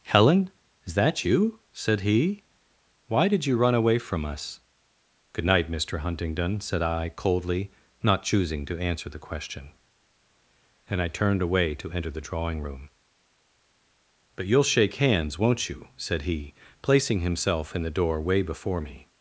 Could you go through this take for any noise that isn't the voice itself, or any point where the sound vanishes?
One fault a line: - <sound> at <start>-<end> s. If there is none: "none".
none